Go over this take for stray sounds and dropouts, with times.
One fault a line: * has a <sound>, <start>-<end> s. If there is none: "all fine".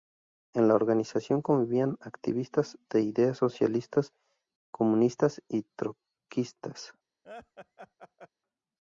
* has a laugh, 7.2-8.3 s